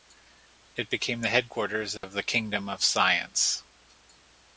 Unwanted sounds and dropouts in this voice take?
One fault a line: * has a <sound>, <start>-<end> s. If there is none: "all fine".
* has a dropout, 2.0-2.0 s